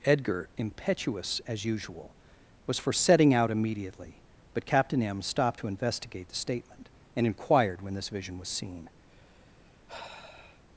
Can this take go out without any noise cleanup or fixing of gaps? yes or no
no